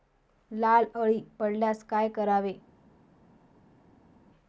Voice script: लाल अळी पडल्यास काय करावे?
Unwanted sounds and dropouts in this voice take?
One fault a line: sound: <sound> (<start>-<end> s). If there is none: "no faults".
no faults